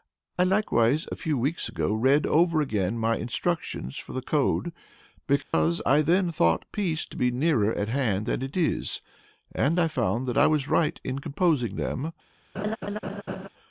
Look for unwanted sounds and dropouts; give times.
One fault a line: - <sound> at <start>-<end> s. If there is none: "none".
- dropout at 5.4-5.5 s
- laugh at 12.5-13.5 s